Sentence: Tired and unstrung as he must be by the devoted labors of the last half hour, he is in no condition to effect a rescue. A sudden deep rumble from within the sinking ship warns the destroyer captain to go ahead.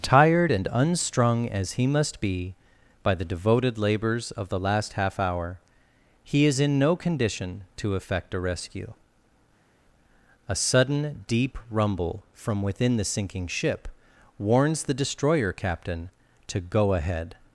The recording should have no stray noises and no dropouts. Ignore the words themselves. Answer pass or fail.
pass